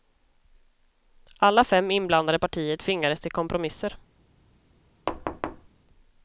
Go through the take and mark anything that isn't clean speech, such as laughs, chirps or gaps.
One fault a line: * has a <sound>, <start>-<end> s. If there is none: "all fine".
* has a thud, 5.1-5.7 s